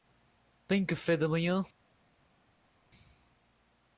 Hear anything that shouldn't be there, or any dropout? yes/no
no